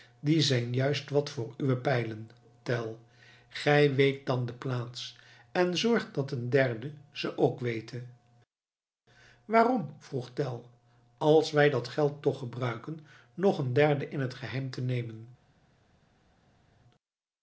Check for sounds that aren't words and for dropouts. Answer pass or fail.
pass